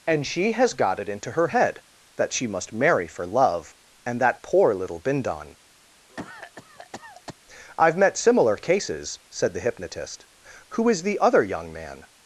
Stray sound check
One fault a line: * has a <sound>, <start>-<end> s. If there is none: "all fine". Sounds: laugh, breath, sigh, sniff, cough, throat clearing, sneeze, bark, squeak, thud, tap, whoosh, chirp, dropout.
* has a cough, 6.1-7.4 s